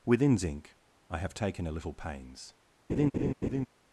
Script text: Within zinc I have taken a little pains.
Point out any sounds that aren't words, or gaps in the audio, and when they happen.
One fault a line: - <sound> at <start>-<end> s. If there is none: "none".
- laugh at 2.9-3.7 s